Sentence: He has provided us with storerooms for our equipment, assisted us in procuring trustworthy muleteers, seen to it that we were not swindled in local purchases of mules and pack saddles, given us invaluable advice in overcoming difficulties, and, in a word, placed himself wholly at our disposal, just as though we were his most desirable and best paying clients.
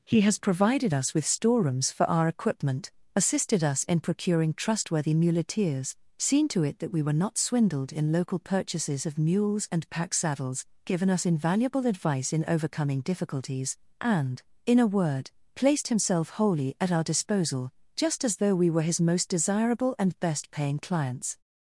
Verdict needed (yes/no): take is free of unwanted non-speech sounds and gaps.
yes